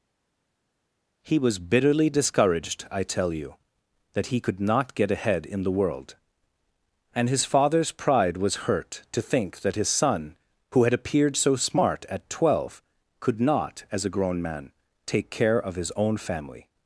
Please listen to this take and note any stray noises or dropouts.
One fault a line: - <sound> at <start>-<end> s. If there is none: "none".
none